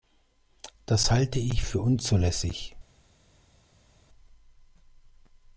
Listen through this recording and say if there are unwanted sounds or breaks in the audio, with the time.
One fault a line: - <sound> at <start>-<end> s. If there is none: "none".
none